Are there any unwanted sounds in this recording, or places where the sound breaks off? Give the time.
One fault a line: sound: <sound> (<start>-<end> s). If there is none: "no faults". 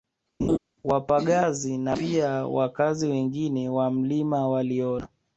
sound: laugh (0.4-0.6 s)